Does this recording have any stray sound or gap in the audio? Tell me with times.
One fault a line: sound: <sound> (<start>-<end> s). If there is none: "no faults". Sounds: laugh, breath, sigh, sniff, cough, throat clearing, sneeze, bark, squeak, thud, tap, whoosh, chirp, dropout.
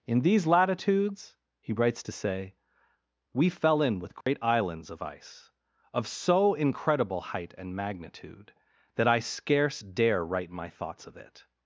sound: dropout (4.2-4.3 s)